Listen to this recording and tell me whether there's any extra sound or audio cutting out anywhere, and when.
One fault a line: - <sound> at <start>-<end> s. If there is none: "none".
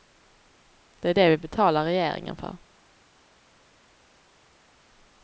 none